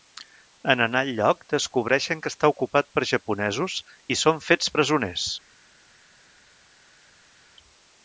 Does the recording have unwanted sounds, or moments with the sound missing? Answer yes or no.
no